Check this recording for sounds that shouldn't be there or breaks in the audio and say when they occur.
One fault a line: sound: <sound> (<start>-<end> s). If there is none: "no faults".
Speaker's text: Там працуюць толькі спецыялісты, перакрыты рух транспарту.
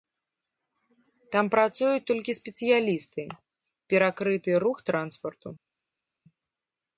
no faults